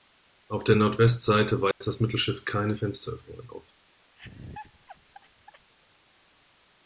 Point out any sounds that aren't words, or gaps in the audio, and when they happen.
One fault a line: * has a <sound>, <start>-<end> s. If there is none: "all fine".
* has a dropout, 1.7-1.8 s
* has a laugh, 4.2-5.7 s